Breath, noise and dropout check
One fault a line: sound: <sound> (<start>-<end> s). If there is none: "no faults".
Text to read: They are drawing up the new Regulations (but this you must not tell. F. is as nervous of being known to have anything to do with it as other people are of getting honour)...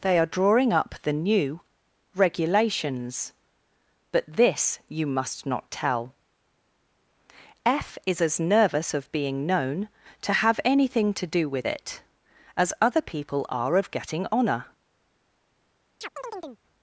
sound: chirp (16.0-16.6 s)